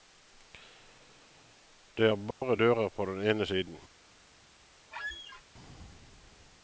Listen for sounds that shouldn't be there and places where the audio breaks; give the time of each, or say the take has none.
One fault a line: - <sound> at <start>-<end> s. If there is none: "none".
- dropout at 2.3-2.4 s
- squeak at 4.9-5.4 s